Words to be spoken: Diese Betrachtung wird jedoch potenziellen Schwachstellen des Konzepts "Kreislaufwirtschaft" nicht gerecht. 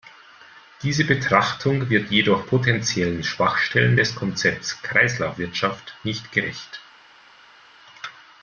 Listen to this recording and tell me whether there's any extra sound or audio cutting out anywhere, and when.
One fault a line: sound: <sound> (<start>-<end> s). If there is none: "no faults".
no faults